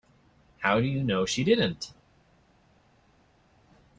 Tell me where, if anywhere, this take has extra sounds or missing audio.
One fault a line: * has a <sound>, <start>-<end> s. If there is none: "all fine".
all fine